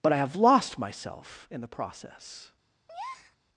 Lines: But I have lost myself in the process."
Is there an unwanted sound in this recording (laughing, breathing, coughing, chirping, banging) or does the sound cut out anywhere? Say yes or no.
yes